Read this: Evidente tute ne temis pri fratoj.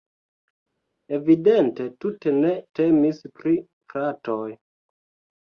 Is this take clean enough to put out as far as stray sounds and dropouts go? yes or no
yes